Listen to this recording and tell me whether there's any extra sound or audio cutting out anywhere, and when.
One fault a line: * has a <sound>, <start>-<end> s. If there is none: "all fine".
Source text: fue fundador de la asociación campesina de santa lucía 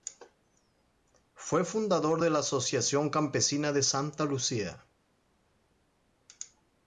all fine